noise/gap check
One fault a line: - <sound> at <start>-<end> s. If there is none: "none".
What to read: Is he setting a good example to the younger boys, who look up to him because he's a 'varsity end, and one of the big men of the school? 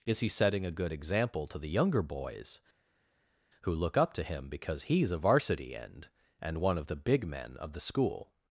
none